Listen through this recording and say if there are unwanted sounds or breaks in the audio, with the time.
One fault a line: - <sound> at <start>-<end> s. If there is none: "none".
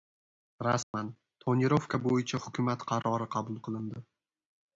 - dropout at 0.8-0.9 s